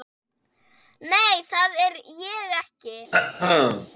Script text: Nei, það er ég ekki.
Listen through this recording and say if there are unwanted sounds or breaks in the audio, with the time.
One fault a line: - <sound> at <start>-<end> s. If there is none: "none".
- throat clearing at 3.1-3.9 s